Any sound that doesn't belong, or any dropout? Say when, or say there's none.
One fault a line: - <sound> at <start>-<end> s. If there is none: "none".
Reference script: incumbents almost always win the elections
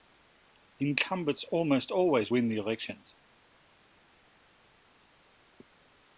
none